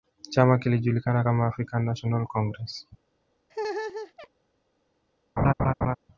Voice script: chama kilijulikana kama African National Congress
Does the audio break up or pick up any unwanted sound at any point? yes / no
yes